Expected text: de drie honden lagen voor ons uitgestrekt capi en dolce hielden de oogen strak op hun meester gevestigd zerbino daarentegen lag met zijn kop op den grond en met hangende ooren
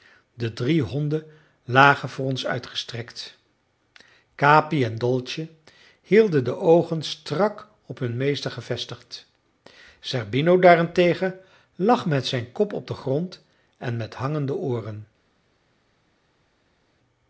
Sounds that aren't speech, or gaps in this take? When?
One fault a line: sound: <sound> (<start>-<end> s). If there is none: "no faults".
no faults